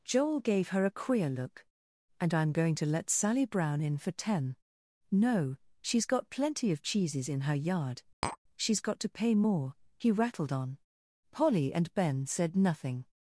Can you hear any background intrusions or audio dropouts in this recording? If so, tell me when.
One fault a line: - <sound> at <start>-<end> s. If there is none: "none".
- tap at 8.2-8.4 s